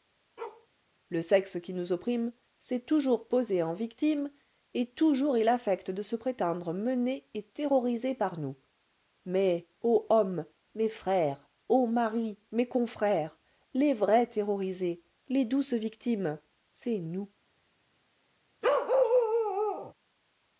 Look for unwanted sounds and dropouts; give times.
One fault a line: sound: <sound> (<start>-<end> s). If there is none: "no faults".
sound: bark (0.4-0.7 s)
sound: bark (18.6-19.9 s)